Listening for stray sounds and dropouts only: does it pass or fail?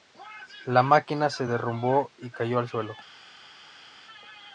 pass